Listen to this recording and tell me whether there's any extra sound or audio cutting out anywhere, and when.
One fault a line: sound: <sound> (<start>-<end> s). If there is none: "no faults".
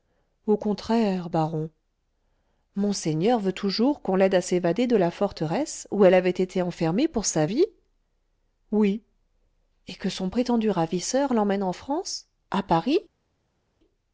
no faults